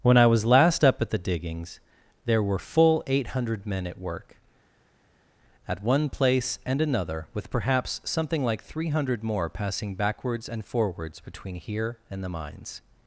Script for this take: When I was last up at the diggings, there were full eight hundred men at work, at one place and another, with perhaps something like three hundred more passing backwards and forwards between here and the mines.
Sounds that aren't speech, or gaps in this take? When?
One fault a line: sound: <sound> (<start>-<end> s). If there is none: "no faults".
no faults